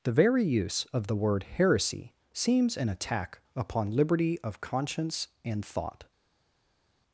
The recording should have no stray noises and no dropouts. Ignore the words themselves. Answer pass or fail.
pass